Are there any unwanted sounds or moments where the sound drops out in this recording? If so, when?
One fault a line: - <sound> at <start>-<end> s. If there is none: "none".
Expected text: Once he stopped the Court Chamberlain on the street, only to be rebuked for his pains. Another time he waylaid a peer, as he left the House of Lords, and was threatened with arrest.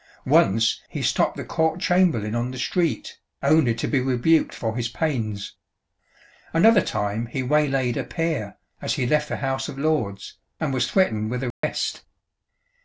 - dropout at 11.5-11.6 s